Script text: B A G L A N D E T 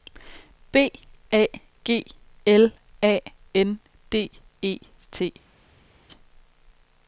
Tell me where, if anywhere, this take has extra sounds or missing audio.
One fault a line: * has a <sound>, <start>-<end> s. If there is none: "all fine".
all fine